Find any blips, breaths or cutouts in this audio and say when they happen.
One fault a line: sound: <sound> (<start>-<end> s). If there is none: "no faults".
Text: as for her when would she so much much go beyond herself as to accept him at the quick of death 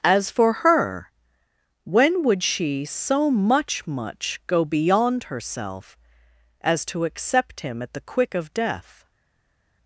no faults